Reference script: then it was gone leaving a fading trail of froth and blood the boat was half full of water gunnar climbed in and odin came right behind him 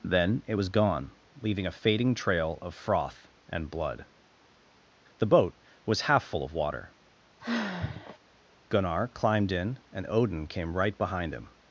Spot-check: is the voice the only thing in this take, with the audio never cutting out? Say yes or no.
no